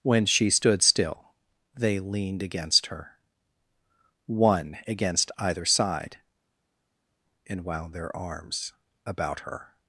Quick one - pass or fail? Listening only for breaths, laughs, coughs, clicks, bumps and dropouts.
pass